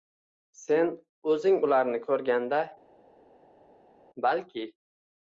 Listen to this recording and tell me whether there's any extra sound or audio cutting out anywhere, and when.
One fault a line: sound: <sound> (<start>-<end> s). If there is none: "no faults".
no faults